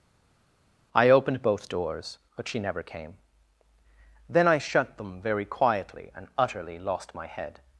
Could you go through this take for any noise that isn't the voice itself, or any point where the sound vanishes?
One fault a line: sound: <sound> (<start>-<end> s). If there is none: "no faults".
no faults